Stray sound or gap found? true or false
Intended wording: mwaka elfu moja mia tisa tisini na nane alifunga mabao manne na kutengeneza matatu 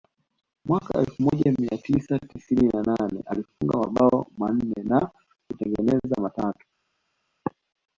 false